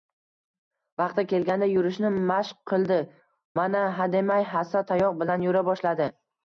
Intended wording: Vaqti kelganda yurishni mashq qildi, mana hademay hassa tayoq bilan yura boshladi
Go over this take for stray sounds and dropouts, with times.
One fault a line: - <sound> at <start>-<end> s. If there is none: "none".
none